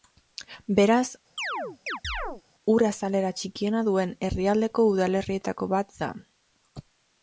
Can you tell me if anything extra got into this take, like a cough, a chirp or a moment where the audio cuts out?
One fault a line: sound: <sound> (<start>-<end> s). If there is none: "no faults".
sound: chirp (1.4-2.4 s)